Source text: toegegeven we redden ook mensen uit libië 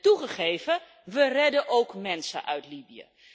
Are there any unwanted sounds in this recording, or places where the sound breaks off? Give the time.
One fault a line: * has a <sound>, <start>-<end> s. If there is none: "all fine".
all fine